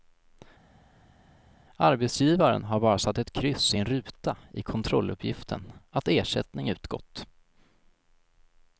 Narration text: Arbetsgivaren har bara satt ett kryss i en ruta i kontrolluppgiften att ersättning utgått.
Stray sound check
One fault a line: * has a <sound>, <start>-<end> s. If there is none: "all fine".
all fine